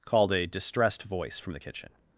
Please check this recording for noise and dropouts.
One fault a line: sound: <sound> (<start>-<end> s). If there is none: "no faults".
no faults